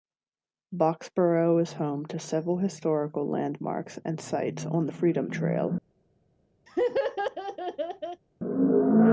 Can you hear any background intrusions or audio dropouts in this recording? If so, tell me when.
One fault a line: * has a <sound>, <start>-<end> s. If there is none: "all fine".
* has a laugh, 6.7-8.2 s